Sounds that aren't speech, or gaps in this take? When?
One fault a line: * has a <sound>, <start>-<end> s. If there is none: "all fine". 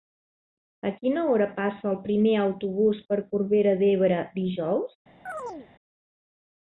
* has a chirp, 5.3-5.7 s